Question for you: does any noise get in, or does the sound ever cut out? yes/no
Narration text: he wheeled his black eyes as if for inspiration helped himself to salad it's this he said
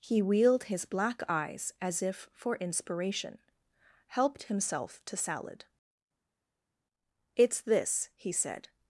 no